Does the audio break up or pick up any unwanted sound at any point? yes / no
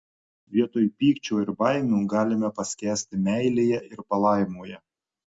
no